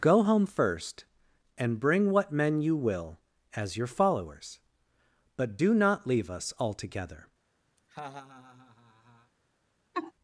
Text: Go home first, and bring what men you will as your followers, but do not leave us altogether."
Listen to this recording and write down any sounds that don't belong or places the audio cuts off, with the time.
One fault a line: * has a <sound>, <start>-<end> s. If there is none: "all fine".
* has a laugh, 7.8-9.3 s
* has a laugh, 9.9-10.1 s